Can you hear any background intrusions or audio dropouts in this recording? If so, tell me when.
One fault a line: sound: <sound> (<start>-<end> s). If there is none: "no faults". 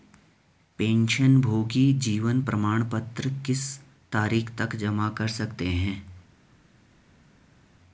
no faults